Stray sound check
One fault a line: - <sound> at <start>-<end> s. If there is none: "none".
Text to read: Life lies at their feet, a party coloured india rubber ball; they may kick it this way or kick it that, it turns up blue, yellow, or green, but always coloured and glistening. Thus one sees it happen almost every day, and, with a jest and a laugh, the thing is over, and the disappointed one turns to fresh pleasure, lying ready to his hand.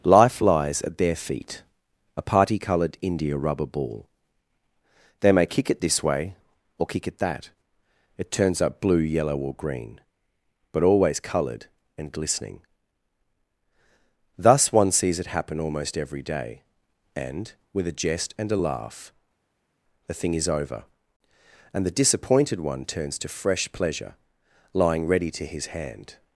none